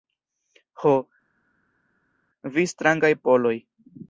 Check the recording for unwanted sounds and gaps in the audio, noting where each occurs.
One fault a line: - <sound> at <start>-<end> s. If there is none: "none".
none